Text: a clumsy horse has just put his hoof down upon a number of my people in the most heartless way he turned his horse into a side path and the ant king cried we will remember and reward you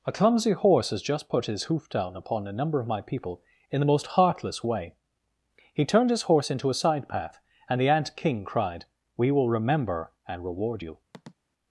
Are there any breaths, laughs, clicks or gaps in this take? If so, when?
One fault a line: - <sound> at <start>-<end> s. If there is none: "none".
- sniff at 11.1-11.4 s